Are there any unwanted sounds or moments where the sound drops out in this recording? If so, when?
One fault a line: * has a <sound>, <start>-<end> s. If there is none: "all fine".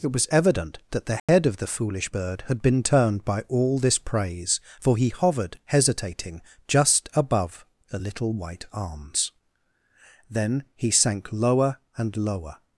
* has a dropout, 1.2-1.3 s